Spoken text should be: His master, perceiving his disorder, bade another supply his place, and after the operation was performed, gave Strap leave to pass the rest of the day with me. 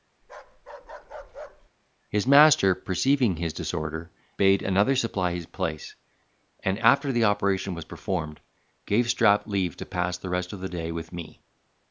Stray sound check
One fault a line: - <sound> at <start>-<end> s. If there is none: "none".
- bark at 0.2-1.7 s